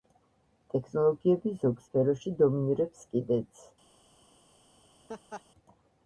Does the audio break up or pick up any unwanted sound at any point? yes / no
yes